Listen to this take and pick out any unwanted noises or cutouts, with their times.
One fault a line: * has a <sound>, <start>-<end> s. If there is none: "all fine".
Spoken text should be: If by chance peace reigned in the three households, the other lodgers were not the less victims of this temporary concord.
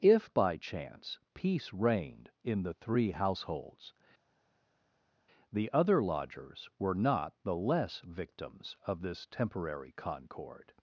all fine